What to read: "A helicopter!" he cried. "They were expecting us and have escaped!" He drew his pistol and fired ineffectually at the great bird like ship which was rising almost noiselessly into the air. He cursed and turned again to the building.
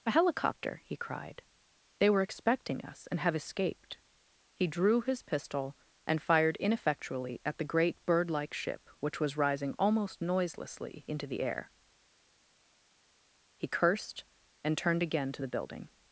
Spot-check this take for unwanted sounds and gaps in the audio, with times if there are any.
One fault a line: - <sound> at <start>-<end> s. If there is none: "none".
none